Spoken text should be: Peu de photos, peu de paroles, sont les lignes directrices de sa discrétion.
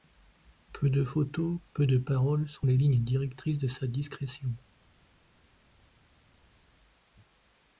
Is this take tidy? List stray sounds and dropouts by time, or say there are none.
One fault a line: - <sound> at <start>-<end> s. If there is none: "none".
none